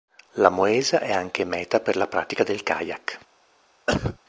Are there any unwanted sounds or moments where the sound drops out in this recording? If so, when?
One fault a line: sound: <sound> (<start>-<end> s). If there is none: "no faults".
sound: cough (3.9-4.2 s)